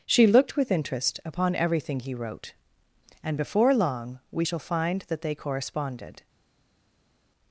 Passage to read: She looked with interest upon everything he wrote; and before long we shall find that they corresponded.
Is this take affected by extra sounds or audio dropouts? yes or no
no